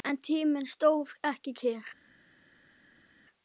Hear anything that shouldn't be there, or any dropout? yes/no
no